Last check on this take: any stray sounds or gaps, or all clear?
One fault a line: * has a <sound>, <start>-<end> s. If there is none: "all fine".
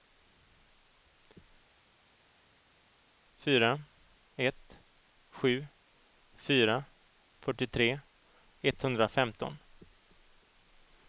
all fine